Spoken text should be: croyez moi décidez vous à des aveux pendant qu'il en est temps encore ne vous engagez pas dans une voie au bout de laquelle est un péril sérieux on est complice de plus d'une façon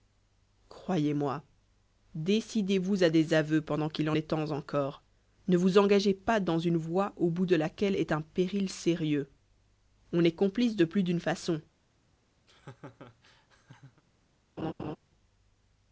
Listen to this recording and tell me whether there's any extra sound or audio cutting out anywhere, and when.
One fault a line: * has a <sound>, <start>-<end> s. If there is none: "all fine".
* has a laugh, 12.5-14.0 s
* has a laugh, 14.6-15.0 s